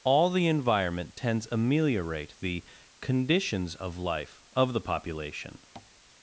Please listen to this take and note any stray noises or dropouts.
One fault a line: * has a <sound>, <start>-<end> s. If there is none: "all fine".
* has a tap, 5.8-5.9 s